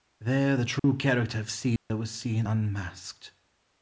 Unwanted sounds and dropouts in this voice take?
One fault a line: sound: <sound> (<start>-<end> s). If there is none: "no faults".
sound: dropout (0.8-0.8 s)
sound: dropout (1.8-1.9 s)